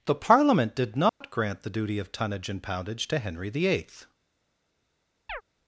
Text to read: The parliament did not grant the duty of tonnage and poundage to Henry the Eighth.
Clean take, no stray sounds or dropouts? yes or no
no